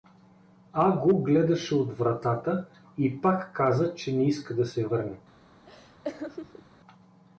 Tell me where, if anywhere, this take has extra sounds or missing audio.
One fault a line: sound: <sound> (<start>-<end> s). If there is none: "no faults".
sound: laugh (5.6-6.7 s)